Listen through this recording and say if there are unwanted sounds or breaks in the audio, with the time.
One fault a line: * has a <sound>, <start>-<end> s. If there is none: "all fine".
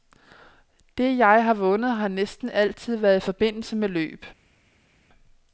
all fine